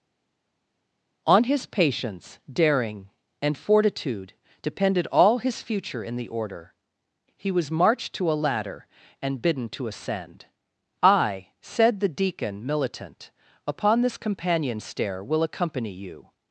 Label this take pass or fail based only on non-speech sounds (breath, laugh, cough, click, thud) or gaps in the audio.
pass